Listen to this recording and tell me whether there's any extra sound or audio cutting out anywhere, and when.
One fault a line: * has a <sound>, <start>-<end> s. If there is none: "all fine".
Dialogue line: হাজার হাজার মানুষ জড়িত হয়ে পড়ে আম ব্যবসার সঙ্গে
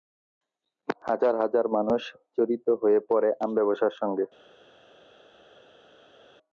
all fine